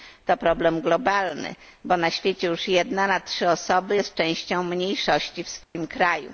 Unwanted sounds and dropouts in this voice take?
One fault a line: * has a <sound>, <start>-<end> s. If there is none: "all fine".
* has a dropout, 5.6-5.8 s